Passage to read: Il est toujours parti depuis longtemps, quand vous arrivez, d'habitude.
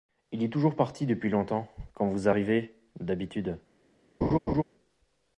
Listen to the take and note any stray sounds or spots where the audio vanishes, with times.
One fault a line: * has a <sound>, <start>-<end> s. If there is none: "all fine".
* has a laugh, 4.2-4.6 s